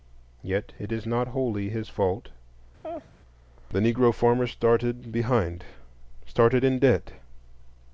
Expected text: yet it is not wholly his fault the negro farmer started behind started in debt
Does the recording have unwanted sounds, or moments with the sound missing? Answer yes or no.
yes